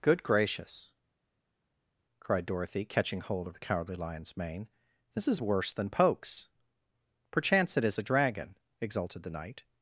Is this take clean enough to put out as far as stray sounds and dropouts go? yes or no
yes